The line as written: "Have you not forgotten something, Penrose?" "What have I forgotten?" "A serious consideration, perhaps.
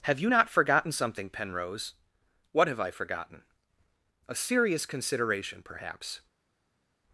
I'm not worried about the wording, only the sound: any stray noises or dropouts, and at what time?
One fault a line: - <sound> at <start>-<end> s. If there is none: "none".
none